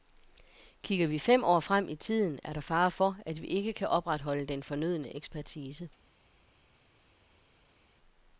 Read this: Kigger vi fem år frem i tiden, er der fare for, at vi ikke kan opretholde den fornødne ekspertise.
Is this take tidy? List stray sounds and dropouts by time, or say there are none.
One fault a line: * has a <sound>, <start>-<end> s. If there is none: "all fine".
all fine